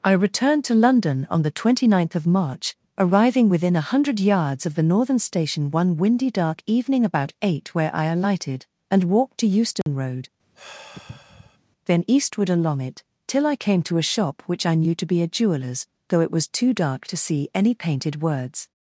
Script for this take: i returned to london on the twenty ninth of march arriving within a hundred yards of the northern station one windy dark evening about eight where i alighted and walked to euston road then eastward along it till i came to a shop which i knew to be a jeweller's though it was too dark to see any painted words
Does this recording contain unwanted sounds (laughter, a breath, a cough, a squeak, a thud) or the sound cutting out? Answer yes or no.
yes